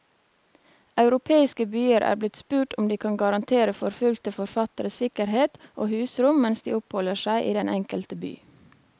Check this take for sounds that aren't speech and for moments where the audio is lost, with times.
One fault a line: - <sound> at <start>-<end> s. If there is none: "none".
none